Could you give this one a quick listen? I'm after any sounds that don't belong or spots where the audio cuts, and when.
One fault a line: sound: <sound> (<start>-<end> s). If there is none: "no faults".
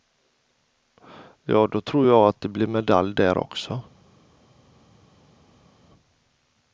no faults